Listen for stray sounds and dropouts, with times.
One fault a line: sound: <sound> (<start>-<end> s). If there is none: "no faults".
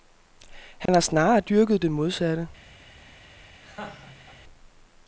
sound: dropout (0.9-0.9 s)
sound: laugh (3.6-4.4 s)